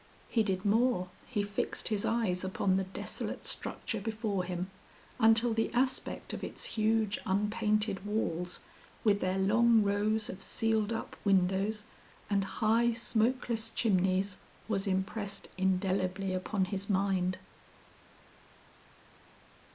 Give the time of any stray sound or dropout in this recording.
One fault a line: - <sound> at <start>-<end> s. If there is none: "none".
none